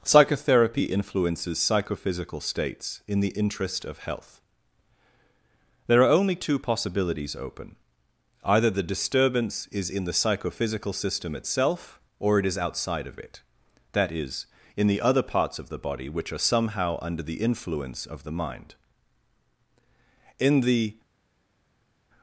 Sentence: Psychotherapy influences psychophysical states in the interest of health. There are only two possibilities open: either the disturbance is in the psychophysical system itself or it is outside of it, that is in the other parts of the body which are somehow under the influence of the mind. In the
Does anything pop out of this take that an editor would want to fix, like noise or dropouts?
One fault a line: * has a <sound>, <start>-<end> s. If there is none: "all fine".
all fine